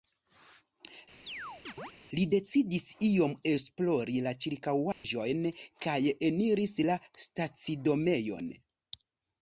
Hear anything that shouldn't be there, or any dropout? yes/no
yes